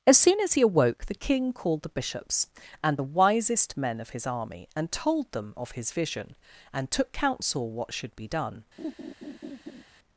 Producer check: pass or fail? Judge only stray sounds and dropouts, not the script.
fail